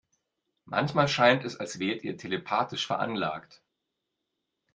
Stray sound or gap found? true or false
false